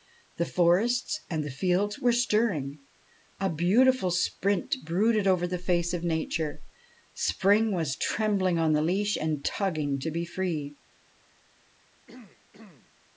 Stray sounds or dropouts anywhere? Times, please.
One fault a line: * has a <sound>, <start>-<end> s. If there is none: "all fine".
* has a throat clearing, 12.1-12.9 s